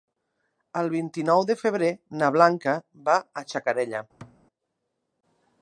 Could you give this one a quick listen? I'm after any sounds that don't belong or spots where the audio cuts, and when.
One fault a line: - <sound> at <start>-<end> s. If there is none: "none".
- thud at 4.2-4.4 s